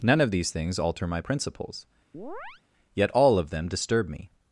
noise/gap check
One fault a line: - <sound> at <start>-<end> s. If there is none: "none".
- chirp at 2.1-2.6 s